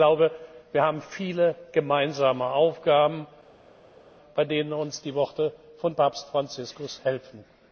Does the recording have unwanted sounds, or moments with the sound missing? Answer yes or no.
no